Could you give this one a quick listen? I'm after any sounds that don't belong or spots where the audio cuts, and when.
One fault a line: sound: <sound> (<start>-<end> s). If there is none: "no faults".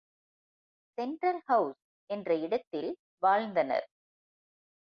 no faults